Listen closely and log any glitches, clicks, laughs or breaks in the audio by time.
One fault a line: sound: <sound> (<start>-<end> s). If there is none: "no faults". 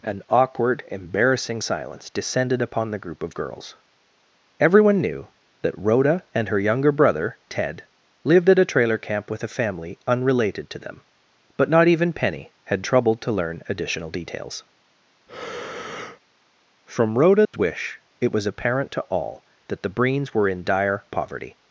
sound: breath (15.3-16.2 s)
sound: dropout (17.4-17.5 s)